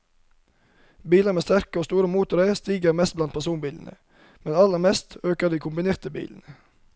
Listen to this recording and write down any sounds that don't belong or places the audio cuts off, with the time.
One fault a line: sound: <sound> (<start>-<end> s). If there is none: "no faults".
no faults